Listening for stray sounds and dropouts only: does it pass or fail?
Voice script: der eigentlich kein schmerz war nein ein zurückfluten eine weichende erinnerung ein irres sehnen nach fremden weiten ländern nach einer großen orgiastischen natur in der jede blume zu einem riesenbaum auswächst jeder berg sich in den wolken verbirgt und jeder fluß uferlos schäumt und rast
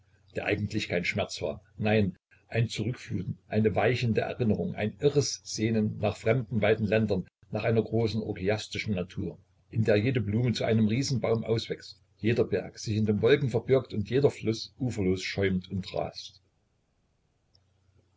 pass